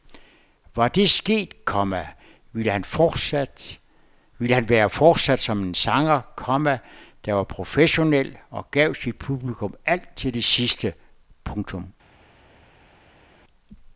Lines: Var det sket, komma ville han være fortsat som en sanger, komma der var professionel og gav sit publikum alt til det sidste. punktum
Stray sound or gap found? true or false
false